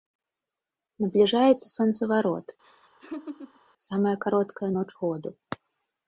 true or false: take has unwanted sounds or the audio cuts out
true